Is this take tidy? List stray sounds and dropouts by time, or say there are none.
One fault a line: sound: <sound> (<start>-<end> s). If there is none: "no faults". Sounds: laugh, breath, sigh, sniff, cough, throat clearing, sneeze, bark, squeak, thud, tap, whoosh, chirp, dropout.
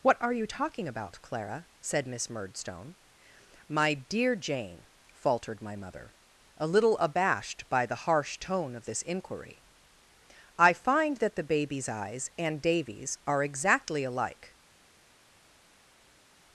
no faults